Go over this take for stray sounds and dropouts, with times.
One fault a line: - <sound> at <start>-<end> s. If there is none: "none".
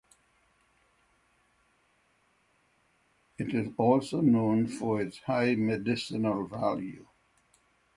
none